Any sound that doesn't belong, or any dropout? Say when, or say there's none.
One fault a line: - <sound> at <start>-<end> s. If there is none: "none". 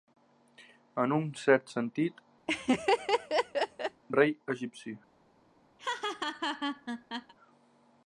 - laugh at 2.5-4.0 s
- laugh at 5.8-7.3 s